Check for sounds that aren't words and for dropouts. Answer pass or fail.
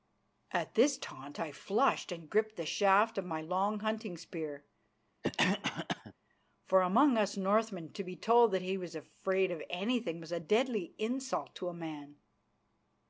fail